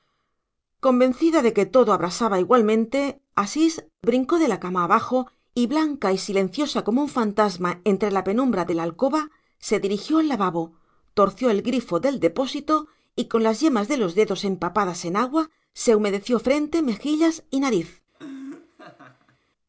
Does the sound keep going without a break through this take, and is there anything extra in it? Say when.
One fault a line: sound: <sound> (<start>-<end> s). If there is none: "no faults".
sound: laugh (18.1-19.4 s)